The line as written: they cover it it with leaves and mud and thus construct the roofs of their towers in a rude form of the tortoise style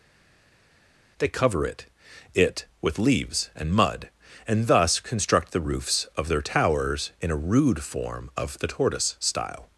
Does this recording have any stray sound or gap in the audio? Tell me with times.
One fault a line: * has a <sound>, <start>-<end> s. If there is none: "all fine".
all fine